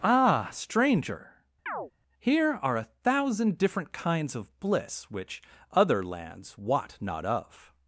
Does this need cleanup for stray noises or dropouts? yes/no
yes